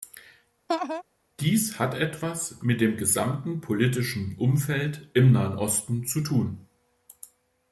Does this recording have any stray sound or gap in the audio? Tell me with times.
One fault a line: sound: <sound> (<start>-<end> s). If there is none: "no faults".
sound: laugh (0.7-1.0 s)